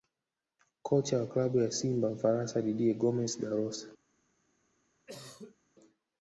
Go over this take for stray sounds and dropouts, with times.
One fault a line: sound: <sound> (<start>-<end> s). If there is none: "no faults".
sound: cough (5.1-5.6 s)